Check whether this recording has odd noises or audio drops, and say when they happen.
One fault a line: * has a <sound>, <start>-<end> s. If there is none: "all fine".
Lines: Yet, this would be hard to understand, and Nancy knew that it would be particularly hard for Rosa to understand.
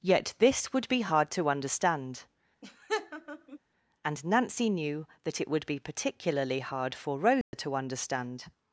* has a laugh, 2.6-3.6 s
* has a dropout, 7.4-7.5 s